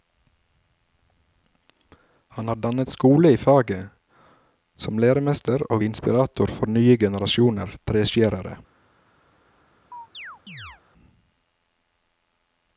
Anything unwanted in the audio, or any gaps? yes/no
yes